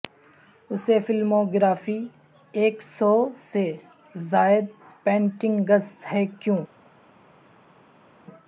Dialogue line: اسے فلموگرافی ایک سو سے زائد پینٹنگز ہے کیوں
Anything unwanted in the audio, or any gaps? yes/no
no